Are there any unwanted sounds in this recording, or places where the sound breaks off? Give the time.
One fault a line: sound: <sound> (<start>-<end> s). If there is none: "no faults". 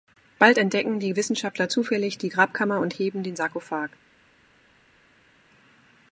no faults